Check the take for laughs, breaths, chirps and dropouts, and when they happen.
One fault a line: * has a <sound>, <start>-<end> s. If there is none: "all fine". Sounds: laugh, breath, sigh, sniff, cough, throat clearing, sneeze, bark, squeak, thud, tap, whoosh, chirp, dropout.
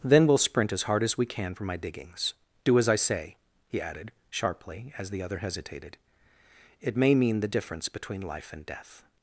all fine